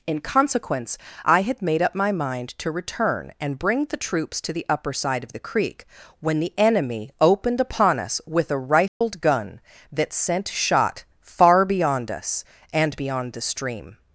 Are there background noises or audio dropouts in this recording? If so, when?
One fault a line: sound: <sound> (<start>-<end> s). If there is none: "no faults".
sound: dropout (8.9-9.0 s)